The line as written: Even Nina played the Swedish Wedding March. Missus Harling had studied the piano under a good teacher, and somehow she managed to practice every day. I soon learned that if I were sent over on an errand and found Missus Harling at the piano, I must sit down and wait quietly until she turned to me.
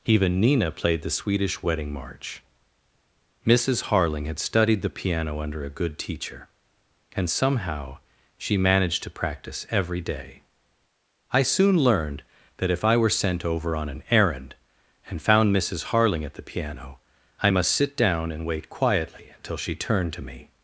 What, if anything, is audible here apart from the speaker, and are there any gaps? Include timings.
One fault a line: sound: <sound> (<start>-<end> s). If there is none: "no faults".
no faults